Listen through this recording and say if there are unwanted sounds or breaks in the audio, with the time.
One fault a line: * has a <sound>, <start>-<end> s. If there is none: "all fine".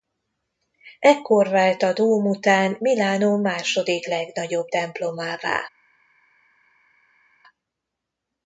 all fine